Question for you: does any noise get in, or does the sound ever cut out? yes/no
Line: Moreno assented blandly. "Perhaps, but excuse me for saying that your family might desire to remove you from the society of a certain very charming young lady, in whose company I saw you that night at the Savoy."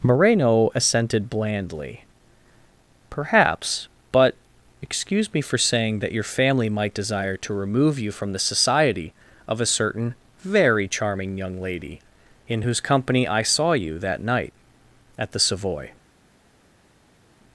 no